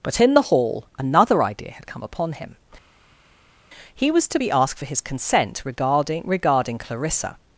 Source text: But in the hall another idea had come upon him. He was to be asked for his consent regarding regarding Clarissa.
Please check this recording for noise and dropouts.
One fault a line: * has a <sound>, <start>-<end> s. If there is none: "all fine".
all fine